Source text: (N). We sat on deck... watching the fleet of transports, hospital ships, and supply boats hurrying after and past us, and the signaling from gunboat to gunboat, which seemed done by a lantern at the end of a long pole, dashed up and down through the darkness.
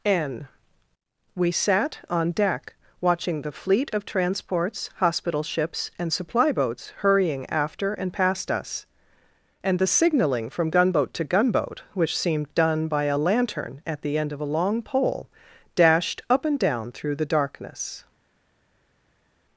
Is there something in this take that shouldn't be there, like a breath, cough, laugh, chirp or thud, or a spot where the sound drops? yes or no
no